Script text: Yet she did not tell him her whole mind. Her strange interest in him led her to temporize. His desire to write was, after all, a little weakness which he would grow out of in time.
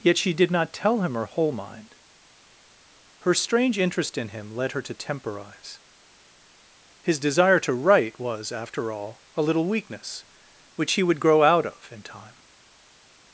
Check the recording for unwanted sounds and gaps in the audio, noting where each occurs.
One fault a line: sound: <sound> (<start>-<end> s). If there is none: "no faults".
no faults